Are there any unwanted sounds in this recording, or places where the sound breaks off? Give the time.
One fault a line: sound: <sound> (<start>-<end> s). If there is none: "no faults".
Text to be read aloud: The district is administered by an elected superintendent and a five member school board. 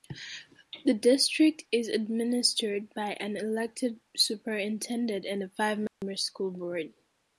sound: dropout (5.9-6.0 s)